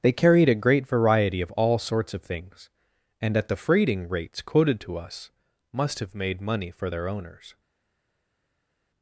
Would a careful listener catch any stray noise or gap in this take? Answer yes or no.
no